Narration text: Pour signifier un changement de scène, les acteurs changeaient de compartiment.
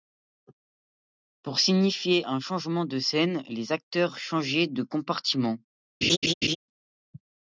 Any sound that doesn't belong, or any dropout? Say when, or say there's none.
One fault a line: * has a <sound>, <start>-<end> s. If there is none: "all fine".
* has a laugh, 6.0-6.6 s